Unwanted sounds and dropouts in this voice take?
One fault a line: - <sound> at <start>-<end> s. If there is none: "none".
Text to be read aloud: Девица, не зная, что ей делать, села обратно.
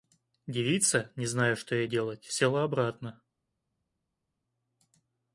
none